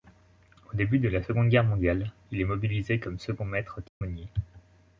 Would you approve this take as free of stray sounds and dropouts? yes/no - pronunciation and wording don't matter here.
no